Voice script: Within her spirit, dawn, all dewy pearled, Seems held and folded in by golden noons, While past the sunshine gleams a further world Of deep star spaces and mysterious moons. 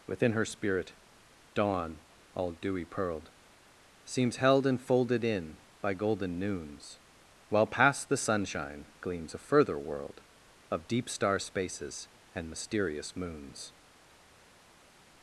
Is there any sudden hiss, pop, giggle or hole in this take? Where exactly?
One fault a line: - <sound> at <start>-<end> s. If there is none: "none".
none